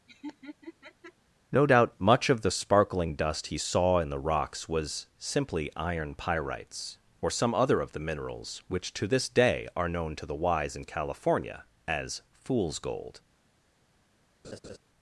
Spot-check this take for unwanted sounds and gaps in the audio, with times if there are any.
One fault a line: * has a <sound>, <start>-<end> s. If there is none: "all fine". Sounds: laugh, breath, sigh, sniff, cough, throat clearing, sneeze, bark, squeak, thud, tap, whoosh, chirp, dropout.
* has a laugh, 0.1-1.1 s
* has a laugh, 14.4-14.8 s